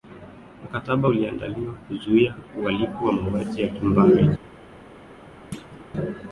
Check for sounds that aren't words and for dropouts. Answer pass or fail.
fail